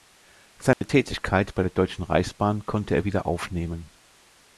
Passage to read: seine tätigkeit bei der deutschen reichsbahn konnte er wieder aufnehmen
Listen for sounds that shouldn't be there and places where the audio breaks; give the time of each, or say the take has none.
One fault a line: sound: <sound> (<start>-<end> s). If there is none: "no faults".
sound: dropout (0.7-0.8 s)